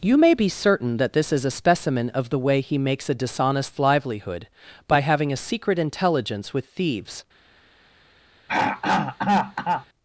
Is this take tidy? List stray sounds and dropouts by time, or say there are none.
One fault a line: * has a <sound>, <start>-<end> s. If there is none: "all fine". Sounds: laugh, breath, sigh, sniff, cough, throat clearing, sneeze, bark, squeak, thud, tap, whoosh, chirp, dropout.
* has a throat clearing, 8.5-9.9 s